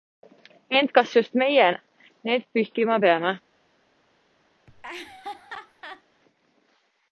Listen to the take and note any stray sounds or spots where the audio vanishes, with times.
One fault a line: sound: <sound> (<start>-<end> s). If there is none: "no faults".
sound: laugh (4.7-6.0 s)